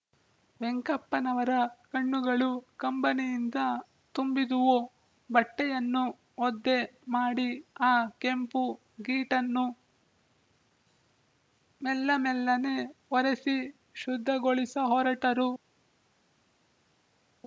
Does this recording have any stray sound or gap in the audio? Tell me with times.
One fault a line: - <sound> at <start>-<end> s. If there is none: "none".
none